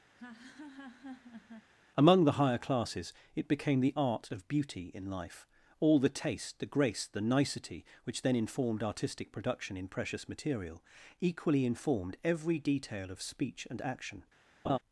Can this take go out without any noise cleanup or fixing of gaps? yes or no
no